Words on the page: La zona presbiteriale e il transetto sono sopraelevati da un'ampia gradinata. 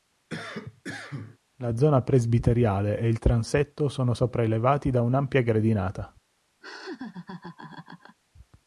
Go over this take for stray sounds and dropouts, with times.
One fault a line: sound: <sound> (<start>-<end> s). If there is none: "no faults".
sound: cough (0.3-1.4 s)
sound: laugh (6.6-8.2 s)